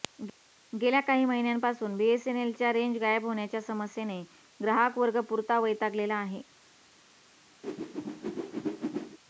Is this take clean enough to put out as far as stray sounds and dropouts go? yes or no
no